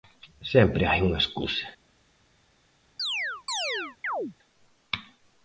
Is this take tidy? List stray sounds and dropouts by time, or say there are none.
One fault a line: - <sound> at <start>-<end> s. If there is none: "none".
- chirp at 3.0-4.3 s